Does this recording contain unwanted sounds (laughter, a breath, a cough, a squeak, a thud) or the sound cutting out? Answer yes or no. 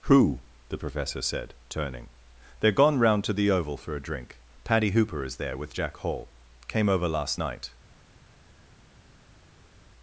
no